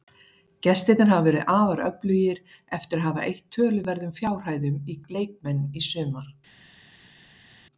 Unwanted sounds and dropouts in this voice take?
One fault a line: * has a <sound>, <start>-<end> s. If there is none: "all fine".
all fine